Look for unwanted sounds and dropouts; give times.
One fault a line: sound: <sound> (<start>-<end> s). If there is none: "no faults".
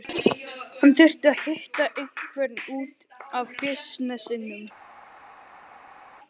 no faults